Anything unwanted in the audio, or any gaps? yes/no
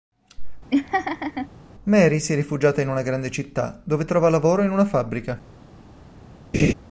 yes